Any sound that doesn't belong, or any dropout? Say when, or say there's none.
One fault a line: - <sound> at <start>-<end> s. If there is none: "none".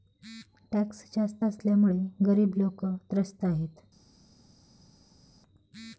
none